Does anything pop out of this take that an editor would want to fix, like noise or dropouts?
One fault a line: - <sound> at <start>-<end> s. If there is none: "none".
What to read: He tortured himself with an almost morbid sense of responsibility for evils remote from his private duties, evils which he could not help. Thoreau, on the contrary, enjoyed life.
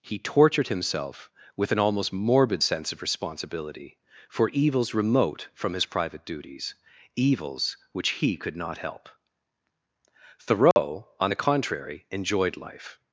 - dropout at 10.7-10.8 s